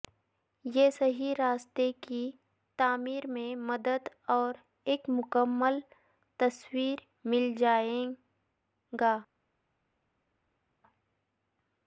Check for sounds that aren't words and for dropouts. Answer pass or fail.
pass